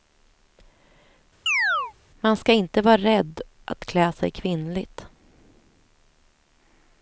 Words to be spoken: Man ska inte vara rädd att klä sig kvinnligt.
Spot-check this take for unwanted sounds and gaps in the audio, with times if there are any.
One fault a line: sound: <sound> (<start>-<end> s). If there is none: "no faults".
sound: chirp (1.5-1.9 s)